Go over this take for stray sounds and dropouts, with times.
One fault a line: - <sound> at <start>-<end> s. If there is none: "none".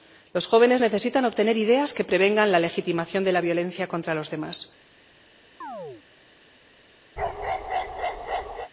- chirp at 5.6-6.0 s
- bark at 7.2-8.7 s